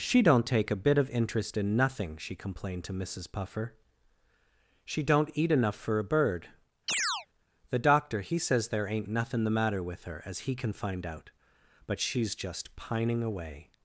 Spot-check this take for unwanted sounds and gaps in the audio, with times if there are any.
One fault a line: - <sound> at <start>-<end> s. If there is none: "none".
- chirp at 6.9-7.3 s